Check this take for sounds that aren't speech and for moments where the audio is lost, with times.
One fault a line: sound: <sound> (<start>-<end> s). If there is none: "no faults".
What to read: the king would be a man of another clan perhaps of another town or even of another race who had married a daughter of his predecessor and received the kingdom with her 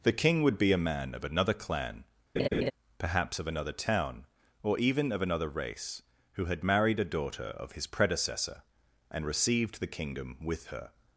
sound: laugh (2.4-2.7 s)